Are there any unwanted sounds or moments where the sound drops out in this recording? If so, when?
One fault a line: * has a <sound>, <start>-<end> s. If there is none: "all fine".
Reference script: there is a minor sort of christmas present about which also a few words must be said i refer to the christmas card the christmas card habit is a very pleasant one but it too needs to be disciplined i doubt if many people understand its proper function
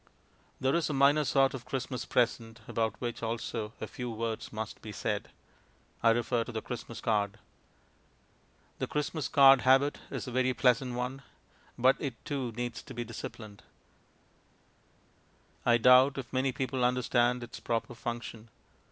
all fine